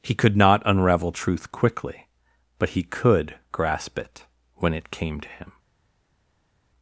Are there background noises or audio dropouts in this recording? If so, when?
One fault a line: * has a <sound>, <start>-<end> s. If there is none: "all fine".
all fine